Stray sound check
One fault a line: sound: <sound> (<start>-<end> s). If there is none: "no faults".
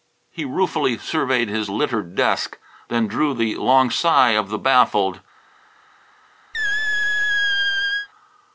sound: squeak (6.5-8.1 s)